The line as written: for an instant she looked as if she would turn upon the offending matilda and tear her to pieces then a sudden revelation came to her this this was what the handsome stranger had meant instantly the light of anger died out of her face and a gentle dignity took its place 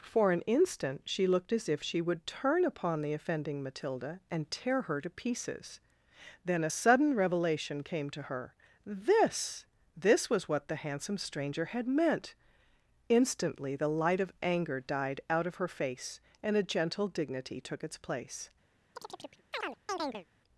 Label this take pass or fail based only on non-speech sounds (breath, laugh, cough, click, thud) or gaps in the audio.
fail